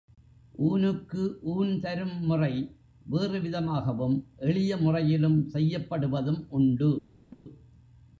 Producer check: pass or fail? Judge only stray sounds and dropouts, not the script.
fail